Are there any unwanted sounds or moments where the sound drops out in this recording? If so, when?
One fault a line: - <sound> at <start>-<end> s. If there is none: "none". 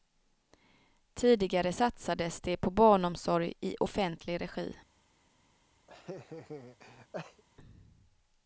- laugh at 5.9-7.4 s